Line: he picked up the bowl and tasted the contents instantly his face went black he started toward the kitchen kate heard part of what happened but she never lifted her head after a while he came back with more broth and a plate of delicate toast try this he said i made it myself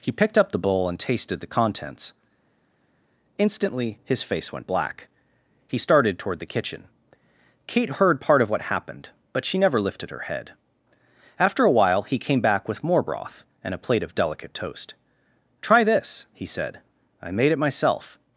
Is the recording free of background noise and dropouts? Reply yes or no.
yes